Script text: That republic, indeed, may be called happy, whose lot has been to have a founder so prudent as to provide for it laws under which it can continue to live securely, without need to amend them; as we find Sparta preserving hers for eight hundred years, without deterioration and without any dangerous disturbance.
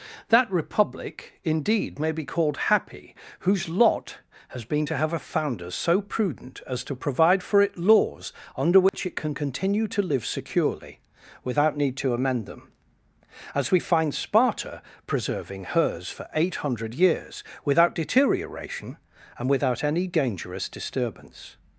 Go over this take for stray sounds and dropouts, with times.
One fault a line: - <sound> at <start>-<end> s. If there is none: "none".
- dropout at 8.9-8.9 s